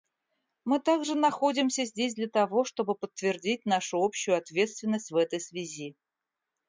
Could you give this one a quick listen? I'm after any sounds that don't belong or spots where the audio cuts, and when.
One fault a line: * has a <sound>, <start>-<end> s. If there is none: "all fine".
all fine